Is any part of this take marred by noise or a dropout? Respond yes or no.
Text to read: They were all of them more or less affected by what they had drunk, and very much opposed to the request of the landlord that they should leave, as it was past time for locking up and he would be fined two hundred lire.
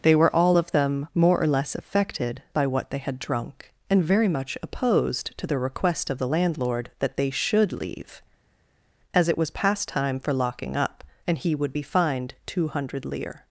no